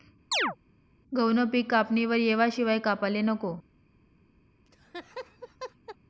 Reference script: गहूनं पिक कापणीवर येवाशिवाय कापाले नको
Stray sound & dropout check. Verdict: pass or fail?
fail